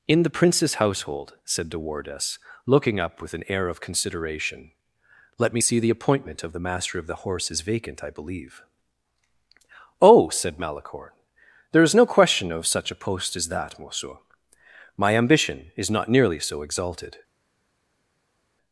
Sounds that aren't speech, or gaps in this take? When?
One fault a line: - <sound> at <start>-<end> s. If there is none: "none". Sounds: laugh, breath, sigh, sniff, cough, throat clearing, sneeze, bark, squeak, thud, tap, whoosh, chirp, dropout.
none